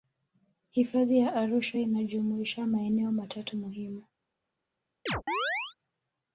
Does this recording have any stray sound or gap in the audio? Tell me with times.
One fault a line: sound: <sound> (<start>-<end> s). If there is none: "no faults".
sound: chirp (5.1-5.8 s)